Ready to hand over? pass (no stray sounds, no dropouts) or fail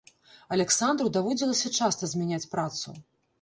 pass